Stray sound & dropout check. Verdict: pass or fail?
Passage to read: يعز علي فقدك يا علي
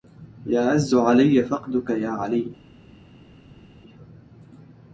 pass